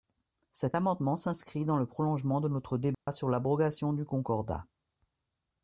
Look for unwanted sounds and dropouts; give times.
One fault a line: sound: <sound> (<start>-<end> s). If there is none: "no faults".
sound: dropout (2.9-3.1 s)